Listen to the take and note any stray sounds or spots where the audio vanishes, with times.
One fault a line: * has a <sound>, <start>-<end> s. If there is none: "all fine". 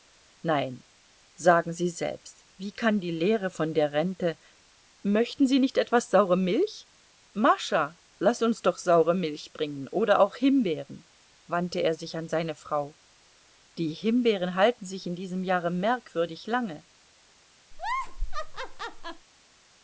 * has a laugh, 17.7-19.3 s